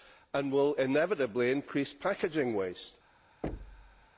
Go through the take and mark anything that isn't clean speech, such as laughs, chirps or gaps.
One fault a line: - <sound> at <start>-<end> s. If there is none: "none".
- thud at 3.4-4.1 s